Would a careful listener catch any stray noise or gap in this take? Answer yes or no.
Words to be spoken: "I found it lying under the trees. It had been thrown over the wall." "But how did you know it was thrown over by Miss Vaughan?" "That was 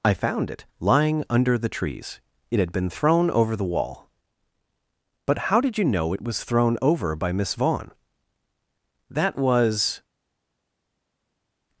no